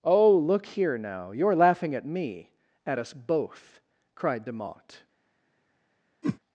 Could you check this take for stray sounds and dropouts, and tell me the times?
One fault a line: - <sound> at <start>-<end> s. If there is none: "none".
- whoosh at 6.2-6.4 s